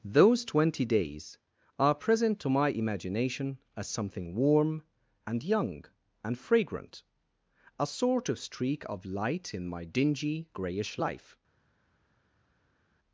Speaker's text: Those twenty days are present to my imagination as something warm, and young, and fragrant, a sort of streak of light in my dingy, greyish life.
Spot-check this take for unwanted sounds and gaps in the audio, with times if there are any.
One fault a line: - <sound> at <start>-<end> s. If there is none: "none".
none